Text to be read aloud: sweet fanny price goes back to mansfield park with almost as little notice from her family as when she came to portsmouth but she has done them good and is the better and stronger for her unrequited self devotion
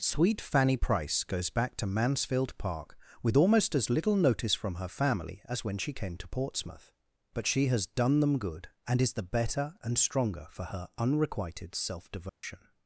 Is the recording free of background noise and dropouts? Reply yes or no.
no